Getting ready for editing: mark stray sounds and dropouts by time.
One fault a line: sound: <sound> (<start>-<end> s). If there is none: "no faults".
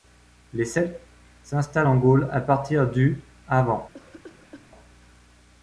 sound: cough (3.9-4.7 s)